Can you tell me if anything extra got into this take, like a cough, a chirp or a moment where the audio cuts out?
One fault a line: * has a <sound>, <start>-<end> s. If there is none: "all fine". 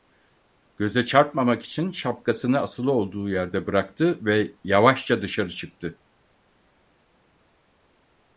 all fine